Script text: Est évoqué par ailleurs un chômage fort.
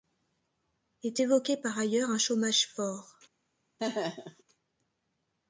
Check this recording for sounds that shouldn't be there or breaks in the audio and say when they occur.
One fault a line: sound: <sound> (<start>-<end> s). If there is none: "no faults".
sound: laugh (3.8-4.4 s)